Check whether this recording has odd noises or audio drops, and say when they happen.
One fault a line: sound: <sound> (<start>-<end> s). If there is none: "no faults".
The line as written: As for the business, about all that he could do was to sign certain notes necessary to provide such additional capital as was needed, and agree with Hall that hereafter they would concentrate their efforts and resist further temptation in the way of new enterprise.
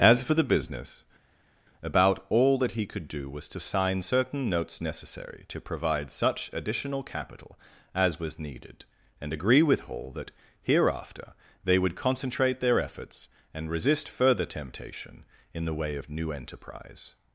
no faults